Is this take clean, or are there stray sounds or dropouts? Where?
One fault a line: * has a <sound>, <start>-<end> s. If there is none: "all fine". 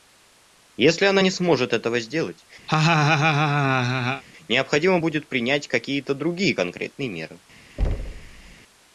* has a laugh, 2.7-4.2 s
* has a thud, 7.8-8.5 s